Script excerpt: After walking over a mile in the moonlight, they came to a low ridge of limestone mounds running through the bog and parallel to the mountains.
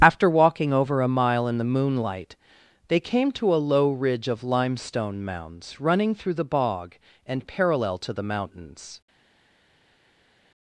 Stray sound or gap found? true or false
false